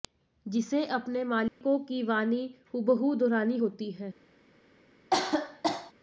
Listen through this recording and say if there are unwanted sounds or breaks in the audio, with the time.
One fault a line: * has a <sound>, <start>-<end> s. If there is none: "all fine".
* has a dropout, 1.5-1.6 s
* has a cough, 5.1-5.9 s